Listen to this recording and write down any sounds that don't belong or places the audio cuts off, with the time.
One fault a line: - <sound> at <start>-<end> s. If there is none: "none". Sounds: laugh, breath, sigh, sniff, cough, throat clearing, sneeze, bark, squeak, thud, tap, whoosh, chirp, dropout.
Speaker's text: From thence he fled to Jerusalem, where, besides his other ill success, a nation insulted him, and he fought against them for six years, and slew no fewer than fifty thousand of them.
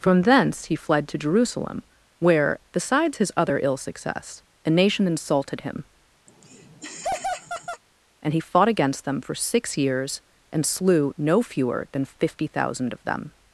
- laugh at 6.3-7.8 s